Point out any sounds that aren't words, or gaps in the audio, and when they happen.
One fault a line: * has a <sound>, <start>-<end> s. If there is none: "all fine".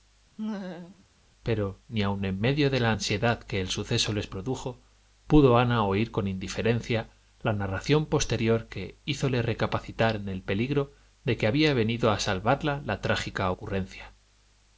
* has a laugh, 0.4-1.0 s